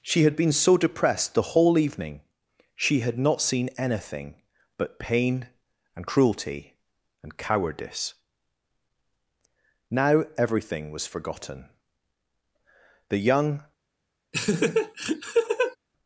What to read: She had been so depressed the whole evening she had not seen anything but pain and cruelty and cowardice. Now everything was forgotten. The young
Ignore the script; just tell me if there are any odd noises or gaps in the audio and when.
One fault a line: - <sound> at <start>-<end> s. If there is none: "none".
- laugh at 14.3-15.8 s